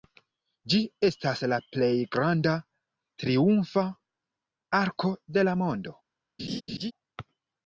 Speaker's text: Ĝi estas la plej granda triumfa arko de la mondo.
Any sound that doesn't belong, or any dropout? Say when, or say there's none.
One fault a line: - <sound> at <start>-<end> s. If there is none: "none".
- laugh at 6.4-6.9 s